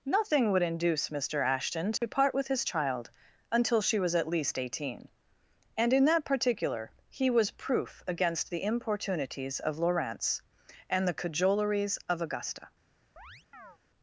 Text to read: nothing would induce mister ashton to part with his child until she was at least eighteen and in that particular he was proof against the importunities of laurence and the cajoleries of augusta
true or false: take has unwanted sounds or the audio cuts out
true